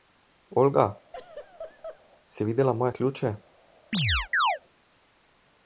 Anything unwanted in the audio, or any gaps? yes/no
yes